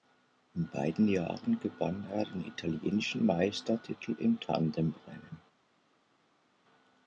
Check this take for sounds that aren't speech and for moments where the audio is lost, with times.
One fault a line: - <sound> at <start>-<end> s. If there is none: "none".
none